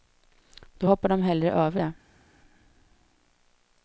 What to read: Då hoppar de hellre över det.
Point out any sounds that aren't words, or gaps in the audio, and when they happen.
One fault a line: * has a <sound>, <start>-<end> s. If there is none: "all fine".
all fine